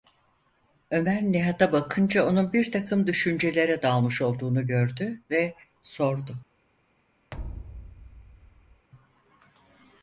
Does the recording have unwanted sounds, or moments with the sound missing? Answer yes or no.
yes